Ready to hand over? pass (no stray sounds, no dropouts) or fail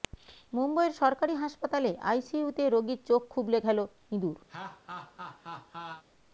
fail